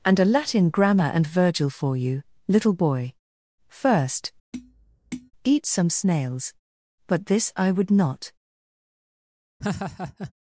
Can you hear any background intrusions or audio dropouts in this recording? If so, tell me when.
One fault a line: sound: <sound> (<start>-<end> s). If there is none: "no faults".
sound: tap (4.5-5.3 s)
sound: laugh (9.6-10.3 s)